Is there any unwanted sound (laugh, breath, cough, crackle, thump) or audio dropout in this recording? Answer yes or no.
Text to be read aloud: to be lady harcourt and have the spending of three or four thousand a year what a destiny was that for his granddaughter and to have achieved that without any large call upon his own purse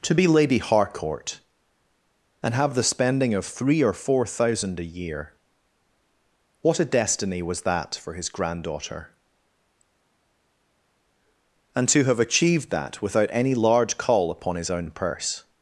no